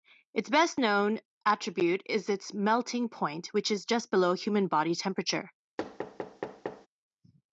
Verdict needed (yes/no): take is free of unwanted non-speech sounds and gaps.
no